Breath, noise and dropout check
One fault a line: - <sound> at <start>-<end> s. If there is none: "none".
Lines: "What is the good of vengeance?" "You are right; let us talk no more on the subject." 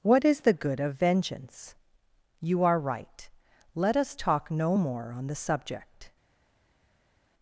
none